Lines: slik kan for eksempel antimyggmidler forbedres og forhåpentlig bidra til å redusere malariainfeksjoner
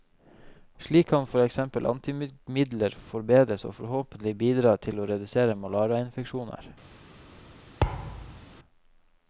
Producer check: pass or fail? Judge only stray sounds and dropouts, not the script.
fail